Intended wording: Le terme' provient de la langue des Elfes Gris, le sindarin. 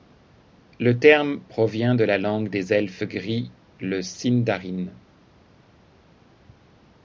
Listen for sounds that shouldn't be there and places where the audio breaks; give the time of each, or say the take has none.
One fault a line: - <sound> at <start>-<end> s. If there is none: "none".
none